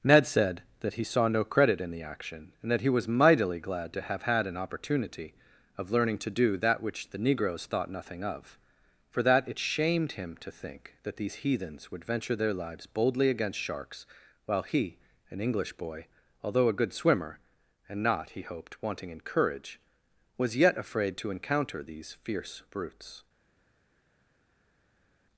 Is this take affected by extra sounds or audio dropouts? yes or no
no